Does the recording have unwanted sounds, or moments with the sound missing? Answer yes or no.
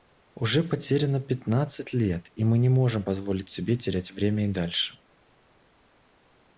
no